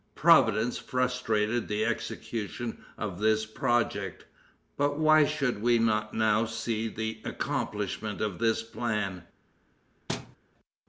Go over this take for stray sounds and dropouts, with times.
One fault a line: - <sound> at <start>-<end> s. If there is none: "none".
- thud at 10.1-10.4 s